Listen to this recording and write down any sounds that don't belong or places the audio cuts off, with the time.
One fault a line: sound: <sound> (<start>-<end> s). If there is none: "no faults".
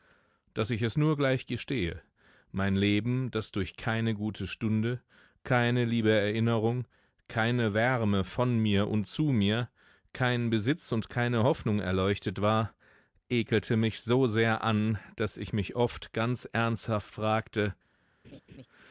sound: laugh (18.2-18.7 s)